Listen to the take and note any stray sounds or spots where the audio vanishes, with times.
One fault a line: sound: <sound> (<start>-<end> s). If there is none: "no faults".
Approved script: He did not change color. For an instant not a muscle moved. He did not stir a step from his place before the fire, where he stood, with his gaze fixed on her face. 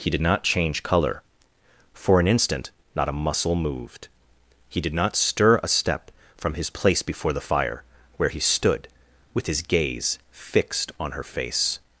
no faults